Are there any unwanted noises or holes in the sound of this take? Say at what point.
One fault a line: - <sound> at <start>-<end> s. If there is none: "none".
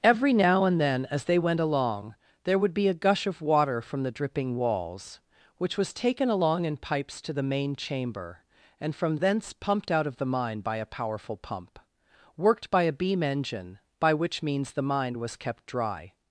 none